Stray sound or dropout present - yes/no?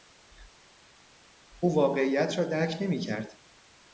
no